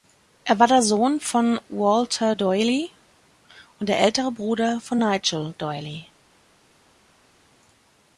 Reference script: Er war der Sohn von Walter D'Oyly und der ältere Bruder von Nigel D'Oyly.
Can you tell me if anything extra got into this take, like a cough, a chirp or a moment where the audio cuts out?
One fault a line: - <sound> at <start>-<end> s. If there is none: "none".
none